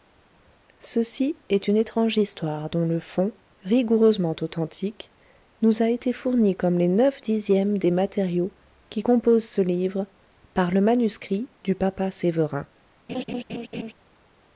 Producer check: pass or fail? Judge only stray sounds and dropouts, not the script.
fail